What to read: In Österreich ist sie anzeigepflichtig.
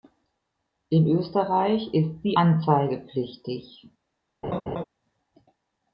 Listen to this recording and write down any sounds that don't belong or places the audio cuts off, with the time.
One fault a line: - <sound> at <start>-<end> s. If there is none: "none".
- laugh at 4.4-4.8 s